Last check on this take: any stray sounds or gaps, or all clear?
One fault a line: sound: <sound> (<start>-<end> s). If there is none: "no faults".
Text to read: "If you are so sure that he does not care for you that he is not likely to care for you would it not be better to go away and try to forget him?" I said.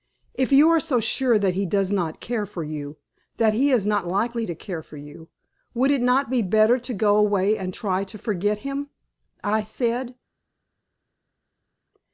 no faults